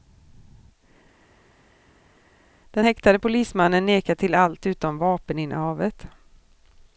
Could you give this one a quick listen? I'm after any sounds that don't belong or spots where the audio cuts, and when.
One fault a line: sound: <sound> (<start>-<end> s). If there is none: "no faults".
no faults